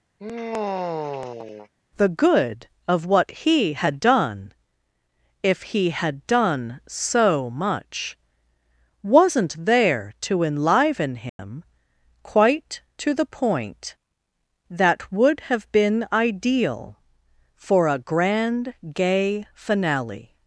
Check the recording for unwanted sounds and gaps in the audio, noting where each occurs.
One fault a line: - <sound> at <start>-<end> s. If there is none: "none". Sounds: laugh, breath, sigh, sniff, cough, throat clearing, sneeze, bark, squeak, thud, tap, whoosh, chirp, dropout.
- sigh at 0.2-1.7 s
- dropout at 11.3-11.4 s